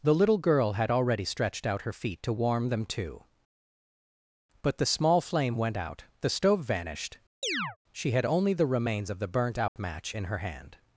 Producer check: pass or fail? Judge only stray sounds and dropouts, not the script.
fail